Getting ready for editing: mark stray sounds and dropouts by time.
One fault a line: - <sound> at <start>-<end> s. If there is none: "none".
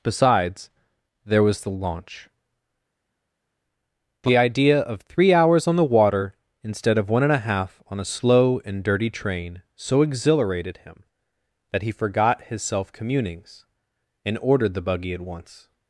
none